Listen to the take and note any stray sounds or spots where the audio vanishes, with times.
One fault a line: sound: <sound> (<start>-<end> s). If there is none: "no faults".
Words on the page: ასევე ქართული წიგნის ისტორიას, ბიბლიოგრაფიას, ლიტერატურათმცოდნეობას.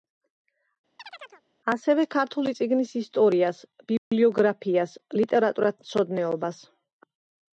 sound: chirp (1.0-1.4 s)
sound: dropout (4.0-4.1 s)